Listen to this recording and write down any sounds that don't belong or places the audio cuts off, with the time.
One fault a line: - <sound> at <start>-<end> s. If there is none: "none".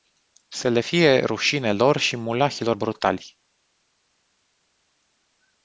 none